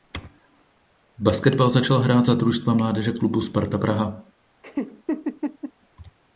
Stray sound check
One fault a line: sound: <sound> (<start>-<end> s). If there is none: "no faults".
sound: laugh (4.6-5.7 s)